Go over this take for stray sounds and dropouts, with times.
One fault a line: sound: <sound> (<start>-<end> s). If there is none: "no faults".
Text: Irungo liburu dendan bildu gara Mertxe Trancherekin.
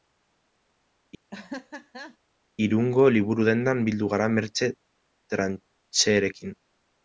sound: laugh (1.3-2.2 s)